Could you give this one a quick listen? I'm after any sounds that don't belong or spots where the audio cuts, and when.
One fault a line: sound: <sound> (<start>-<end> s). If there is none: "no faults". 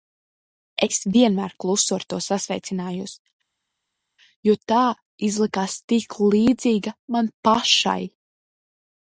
no faults